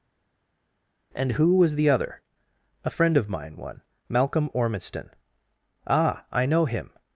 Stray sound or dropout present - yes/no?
no